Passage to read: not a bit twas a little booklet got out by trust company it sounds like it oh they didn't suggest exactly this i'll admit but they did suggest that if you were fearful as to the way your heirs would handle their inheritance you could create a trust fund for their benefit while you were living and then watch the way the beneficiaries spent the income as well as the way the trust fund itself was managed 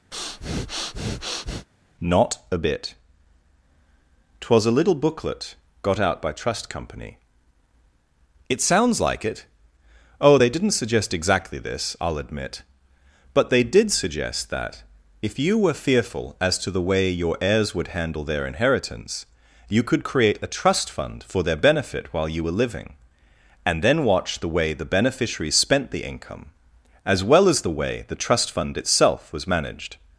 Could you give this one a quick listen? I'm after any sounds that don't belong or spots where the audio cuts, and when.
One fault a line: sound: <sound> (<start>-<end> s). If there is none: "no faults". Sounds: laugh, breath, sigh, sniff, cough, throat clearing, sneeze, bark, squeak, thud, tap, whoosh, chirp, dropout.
sound: breath (0.1-1.7 s)